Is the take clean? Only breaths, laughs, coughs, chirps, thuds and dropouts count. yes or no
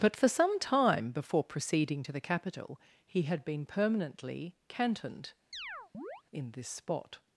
no